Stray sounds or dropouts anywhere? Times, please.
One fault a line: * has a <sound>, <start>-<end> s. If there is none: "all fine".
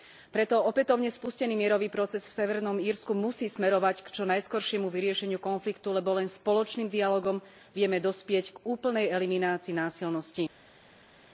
all fine